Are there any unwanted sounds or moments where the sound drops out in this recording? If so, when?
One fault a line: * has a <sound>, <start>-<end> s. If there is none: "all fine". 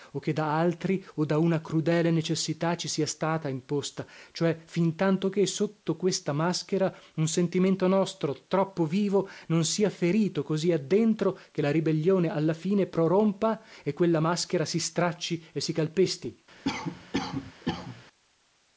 * has a cough, 16.6-18.0 s